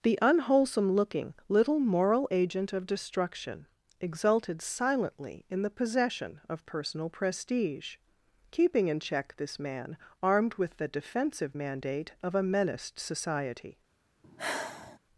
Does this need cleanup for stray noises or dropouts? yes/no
yes